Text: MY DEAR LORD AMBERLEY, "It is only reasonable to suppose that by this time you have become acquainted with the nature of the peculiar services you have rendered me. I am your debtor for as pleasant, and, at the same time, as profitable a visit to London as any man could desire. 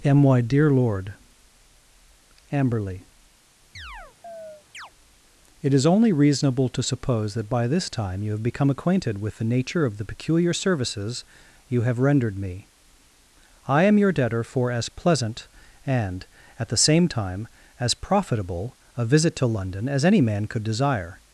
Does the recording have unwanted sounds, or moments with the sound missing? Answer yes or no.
yes